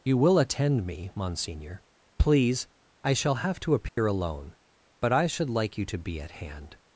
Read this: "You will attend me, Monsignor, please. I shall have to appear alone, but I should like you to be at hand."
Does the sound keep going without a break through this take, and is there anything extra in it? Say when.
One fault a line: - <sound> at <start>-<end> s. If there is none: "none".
- dropout at 3.9-4.0 s